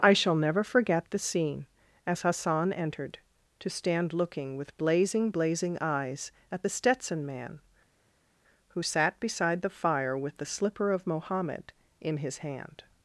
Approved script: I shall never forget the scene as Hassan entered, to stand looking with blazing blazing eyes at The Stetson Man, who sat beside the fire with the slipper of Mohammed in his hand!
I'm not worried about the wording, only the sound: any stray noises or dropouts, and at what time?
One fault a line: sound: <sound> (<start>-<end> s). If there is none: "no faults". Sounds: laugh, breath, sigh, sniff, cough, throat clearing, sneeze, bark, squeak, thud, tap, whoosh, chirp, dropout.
no faults